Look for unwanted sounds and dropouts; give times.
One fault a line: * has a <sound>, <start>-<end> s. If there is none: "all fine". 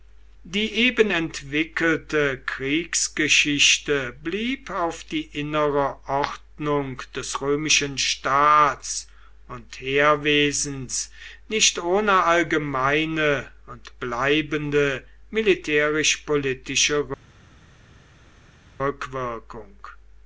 all fine